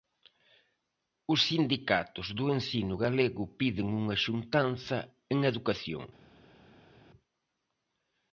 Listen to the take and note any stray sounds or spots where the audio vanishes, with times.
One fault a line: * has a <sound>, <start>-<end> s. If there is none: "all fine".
all fine